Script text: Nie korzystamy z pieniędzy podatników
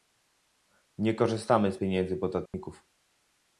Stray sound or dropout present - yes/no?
yes